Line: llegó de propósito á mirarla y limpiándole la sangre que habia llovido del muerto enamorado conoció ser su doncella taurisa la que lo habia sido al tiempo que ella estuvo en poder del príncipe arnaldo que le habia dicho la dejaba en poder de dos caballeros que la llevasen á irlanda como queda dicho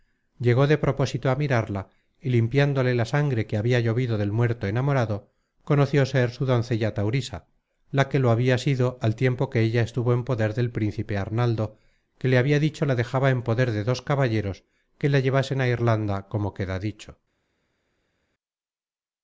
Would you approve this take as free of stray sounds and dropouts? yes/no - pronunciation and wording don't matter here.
yes